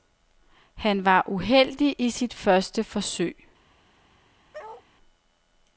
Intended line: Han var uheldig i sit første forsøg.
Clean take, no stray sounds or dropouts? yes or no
no